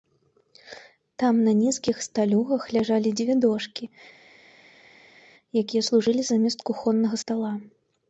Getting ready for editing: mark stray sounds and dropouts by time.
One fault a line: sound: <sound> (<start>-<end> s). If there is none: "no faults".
no faults